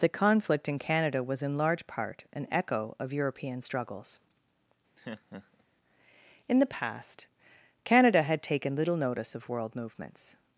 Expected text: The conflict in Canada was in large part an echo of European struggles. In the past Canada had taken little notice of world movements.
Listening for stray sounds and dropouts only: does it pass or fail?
fail